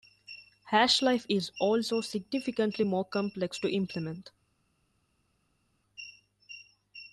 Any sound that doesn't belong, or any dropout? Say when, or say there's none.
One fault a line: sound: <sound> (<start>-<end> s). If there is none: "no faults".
no faults